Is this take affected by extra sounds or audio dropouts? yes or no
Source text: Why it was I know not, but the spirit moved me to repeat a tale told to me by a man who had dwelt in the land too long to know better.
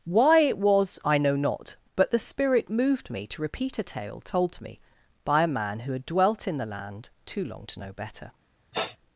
yes